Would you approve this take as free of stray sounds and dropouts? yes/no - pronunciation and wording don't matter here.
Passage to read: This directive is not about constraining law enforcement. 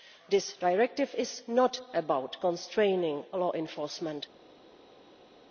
yes